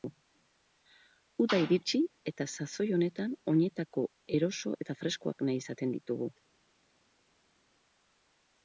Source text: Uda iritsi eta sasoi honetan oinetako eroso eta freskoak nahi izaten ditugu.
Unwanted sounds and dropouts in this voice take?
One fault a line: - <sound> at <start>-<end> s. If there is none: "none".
none